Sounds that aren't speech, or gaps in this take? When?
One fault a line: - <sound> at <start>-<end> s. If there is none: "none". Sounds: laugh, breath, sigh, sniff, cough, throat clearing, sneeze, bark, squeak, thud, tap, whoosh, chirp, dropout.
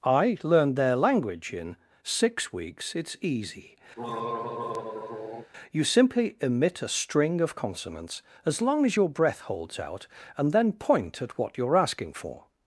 - throat clearing at 4.0-5.5 s